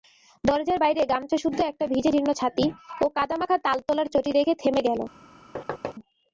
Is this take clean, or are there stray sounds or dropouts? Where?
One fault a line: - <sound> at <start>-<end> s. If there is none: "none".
- thud at 5.6-6.0 s